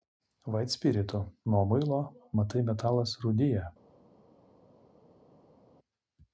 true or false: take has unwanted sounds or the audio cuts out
false